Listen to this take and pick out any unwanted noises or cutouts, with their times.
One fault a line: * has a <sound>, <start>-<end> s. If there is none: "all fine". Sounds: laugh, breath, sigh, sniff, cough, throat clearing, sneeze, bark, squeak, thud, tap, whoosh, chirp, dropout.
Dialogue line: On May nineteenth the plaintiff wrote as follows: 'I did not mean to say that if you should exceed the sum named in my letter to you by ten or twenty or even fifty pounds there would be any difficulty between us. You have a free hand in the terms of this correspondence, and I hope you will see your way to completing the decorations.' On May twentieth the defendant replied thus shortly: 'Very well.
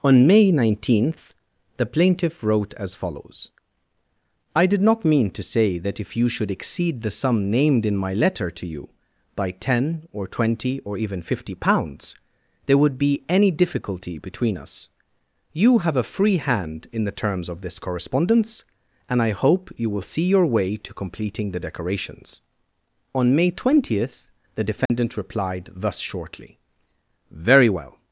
* has a dropout, 24.9-24.9 s